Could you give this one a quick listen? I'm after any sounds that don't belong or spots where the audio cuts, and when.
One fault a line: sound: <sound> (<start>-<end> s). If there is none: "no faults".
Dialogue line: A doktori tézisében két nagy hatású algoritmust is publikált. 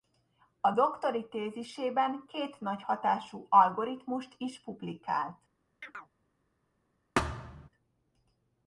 sound: chirp (5.8-6.1 s)
sound: thud (7.2-7.7 s)